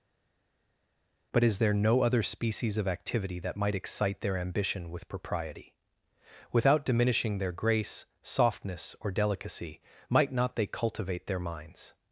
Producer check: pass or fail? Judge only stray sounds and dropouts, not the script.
pass